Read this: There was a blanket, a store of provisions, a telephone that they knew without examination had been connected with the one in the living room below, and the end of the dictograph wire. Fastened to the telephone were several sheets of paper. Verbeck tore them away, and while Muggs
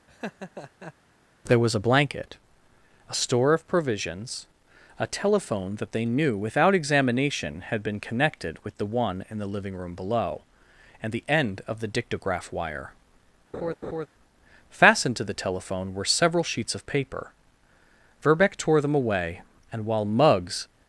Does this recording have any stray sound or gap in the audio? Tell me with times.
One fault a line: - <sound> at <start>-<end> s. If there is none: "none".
- laugh at 0.1-0.9 s
- laugh at 13.5-14.1 s